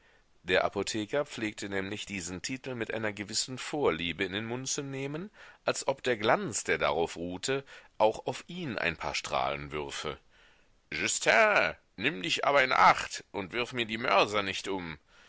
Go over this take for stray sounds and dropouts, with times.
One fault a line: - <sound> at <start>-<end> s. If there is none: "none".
none